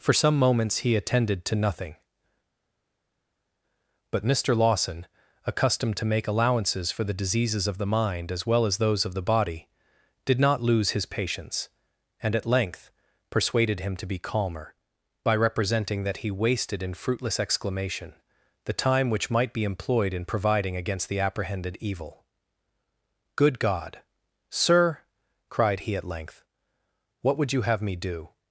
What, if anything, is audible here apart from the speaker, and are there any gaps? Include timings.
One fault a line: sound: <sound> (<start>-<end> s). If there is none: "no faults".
no faults